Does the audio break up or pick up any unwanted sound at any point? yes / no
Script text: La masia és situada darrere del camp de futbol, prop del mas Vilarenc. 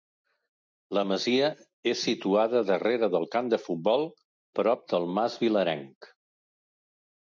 no